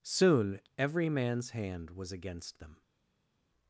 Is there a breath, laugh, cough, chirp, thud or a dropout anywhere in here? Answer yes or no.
no